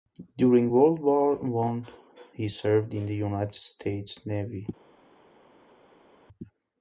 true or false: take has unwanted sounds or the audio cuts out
false